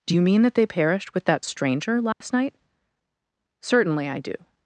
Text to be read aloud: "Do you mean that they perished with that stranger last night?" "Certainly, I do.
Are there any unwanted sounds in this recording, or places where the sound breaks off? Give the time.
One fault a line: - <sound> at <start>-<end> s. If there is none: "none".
- dropout at 2.1-2.2 s